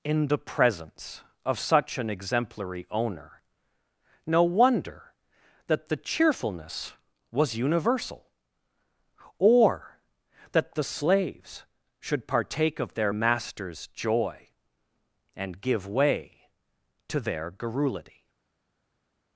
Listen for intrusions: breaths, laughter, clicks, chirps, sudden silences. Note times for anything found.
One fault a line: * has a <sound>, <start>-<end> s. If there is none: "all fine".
all fine